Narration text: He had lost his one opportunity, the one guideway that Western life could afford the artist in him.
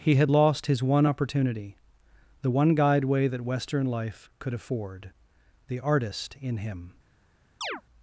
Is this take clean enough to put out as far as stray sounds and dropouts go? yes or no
no